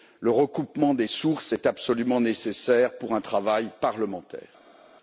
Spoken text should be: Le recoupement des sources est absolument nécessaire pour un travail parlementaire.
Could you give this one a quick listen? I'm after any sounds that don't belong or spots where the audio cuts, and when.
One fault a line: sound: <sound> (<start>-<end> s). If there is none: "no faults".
no faults